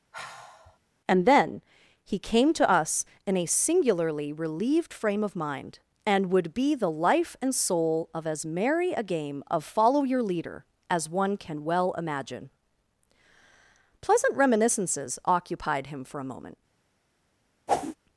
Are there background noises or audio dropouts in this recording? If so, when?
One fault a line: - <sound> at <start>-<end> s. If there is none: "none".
- sigh at 0.1-0.8 s
- whoosh at 17.7-18.0 s